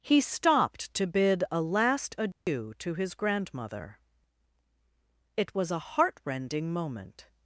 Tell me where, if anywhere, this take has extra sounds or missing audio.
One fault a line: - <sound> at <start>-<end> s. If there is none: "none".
- dropout at 2.3-2.5 s